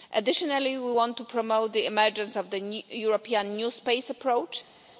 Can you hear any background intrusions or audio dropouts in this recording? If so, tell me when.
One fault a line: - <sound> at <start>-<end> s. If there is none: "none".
none